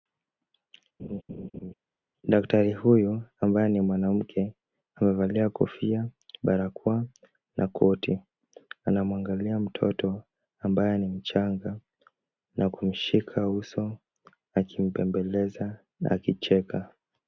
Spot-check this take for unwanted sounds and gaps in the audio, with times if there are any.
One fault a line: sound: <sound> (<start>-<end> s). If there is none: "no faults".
sound: laugh (1.0-1.7 s)